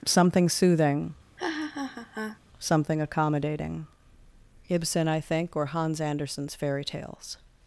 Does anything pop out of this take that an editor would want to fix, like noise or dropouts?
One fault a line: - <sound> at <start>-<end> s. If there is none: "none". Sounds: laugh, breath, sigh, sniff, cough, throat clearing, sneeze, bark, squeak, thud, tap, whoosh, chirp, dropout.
- laugh at 1.4-2.4 s